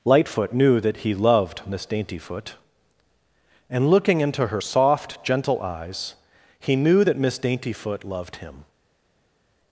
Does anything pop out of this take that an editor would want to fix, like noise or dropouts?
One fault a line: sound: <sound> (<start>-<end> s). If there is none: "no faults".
no faults